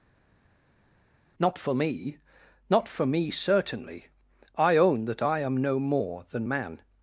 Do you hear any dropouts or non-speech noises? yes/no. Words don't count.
no